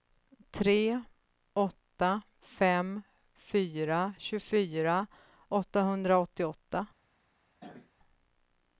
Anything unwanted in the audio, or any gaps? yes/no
yes